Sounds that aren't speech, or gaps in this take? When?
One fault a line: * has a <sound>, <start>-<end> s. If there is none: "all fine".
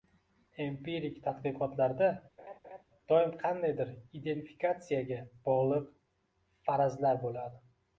* has a laugh, 2.4-2.8 s